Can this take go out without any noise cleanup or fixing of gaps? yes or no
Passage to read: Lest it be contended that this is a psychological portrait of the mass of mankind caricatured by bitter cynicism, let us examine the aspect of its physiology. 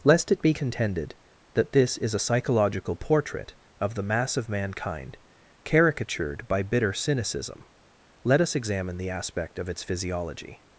yes